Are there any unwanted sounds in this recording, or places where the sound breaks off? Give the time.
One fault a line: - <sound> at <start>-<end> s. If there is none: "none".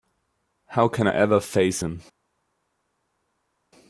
none